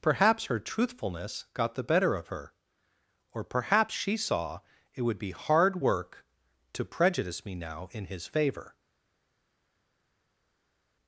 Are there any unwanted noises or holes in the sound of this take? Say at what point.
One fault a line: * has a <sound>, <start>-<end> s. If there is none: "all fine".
all fine